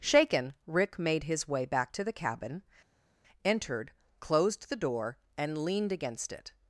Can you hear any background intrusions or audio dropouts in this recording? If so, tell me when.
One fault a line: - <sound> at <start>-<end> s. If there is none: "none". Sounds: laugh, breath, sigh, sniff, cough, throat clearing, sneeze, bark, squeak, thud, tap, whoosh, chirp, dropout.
none